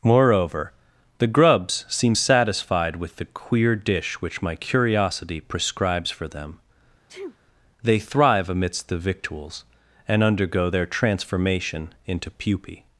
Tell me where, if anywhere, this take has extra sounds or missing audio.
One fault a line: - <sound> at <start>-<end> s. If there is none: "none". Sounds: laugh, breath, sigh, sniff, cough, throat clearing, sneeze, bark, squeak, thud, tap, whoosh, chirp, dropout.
- sneeze at 7.1-7.4 s